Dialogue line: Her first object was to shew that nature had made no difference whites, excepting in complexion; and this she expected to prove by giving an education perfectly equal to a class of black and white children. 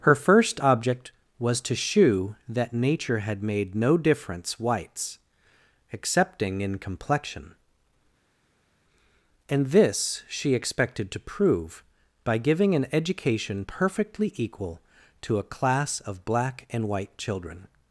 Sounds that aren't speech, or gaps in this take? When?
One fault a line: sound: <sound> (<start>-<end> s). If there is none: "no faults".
no faults